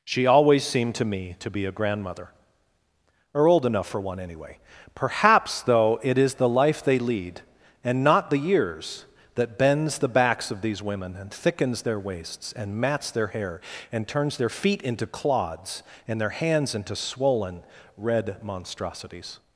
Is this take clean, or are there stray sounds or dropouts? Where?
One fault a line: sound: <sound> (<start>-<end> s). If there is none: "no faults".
no faults